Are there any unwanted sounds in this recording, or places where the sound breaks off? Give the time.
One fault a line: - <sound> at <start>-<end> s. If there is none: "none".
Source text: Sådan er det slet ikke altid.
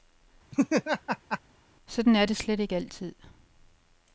- laugh at 0.5-1.4 s